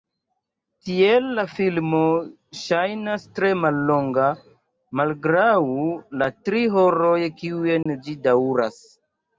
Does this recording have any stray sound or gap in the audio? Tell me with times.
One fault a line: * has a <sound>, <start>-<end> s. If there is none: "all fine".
* has a dropout, 7.8-7.9 s